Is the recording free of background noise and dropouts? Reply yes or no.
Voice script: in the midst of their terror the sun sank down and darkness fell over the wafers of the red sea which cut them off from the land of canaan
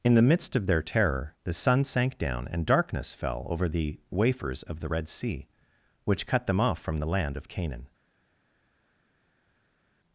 yes